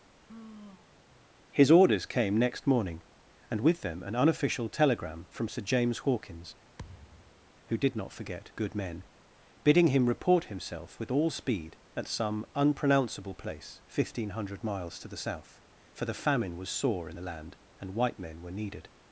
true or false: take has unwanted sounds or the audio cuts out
true